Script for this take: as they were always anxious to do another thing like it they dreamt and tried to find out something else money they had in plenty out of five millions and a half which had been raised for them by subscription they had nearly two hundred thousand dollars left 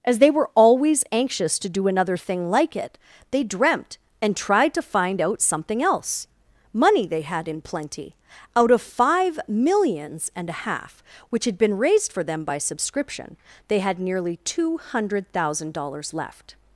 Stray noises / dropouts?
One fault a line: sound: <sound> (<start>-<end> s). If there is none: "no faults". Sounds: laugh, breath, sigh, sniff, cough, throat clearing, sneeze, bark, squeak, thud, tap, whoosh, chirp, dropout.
no faults